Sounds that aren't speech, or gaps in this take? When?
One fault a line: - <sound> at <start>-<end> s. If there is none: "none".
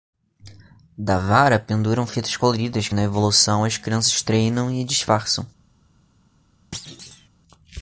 - thud at 6.7-7.3 s